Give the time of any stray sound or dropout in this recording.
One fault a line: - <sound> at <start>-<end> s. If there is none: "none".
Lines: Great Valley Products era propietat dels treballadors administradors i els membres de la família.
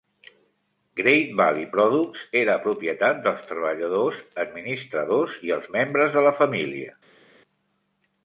none